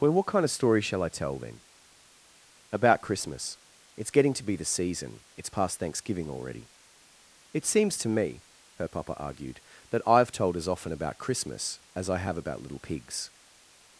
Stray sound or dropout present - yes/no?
no